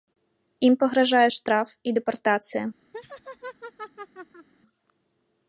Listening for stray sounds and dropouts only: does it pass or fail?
fail